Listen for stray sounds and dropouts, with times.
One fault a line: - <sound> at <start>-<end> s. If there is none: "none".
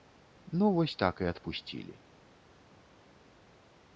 none